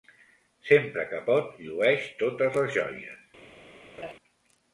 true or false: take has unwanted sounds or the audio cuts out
true